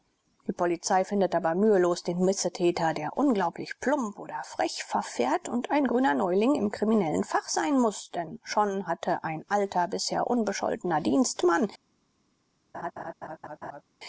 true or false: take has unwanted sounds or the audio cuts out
true